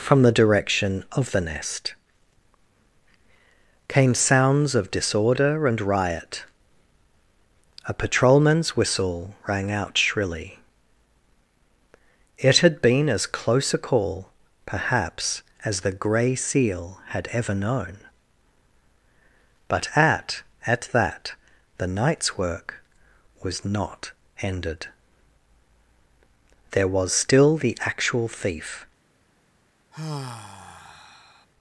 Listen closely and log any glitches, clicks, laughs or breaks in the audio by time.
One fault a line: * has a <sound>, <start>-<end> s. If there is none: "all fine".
* has a sigh, 29.9-31.5 s